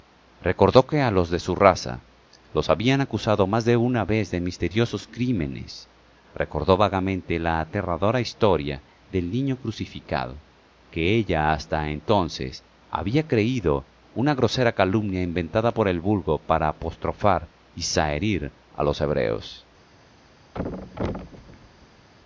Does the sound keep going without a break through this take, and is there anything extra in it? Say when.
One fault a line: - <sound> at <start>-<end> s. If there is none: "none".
- thud at 20.5-22.1 s